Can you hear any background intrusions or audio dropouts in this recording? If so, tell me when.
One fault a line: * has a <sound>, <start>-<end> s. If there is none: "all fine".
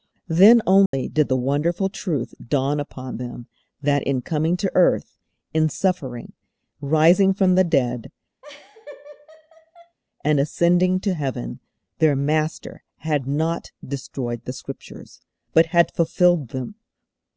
* has a dropout, 0.9-0.9 s
* has a laugh, 8.4-10.0 s